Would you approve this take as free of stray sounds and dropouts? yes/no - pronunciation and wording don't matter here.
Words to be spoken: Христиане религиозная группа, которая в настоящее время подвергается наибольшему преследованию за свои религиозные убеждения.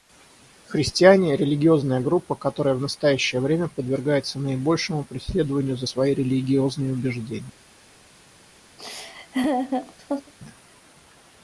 no